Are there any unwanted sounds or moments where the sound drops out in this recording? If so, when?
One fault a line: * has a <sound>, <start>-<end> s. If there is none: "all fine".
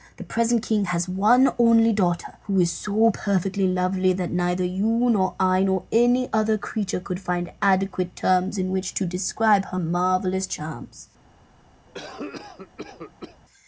* has a cough, 11.9-13.4 s